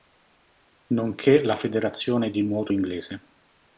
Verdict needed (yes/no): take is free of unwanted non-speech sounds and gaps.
yes